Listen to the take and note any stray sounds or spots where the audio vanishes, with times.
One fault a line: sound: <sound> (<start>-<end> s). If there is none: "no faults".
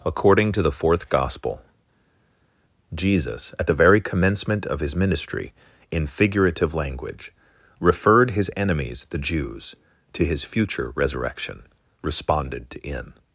no faults